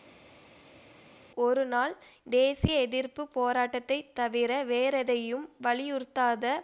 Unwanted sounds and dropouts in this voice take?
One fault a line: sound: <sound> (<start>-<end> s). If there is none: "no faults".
no faults